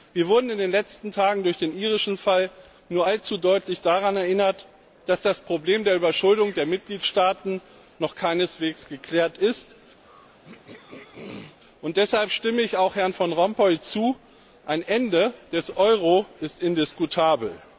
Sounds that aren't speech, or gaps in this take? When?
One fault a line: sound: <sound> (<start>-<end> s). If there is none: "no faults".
sound: throat clearing (10.0-11.6 s)